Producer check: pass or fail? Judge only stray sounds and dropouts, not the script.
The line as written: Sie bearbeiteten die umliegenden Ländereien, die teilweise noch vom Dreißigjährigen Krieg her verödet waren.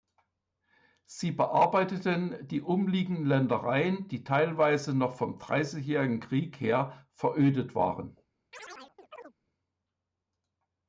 fail